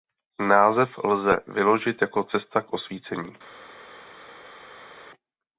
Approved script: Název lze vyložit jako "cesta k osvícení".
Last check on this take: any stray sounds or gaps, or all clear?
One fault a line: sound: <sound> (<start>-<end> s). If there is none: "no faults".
no faults